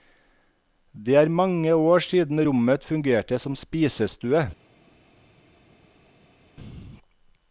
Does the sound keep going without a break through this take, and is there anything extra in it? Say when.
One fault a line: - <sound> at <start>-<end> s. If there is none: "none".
none